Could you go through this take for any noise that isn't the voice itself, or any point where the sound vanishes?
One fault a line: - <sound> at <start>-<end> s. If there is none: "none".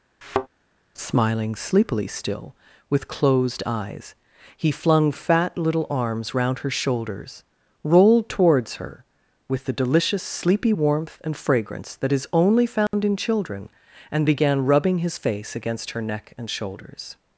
- thud at 0.2-0.5 s
- dropout at 12.9-12.9 s